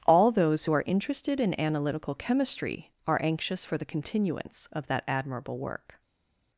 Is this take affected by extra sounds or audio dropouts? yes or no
no